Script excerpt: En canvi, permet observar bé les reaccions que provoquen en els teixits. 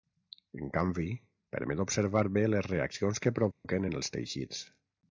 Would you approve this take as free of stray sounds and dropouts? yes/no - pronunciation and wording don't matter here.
no